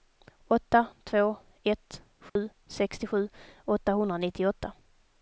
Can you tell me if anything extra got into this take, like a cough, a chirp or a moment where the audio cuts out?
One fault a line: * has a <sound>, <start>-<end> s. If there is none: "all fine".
* has a dropout, 2.3-2.4 s